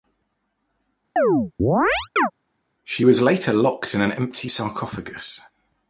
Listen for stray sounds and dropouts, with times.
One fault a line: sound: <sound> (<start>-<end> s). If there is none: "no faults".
sound: chirp (1.2-2.3 s)